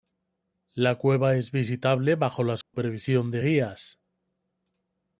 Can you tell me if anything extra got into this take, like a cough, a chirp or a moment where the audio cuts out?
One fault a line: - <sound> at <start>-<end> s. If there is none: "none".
- dropout at 2.6-2.7 s